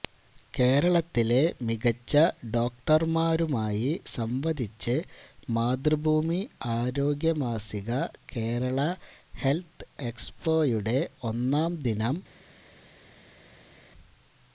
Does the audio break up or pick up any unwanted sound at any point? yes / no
no